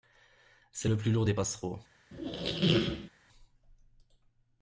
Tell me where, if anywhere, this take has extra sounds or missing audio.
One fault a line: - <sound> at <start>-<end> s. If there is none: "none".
- squeak at 2.1-3.1 s